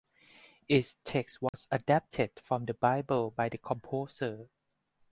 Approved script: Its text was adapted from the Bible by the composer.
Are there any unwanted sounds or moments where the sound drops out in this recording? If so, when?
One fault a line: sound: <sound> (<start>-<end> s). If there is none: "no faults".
sound: dropout (1.5-1.5 s)